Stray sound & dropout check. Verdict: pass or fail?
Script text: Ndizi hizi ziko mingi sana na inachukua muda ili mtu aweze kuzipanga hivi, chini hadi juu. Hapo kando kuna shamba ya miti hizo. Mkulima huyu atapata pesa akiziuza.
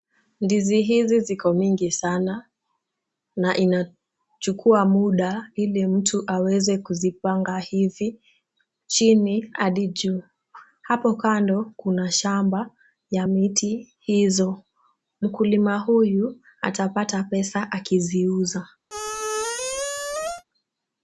fail